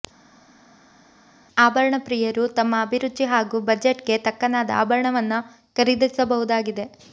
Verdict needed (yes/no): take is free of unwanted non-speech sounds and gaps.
yes